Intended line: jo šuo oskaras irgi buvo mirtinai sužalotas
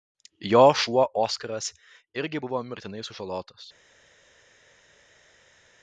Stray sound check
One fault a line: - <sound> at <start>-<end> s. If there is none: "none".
none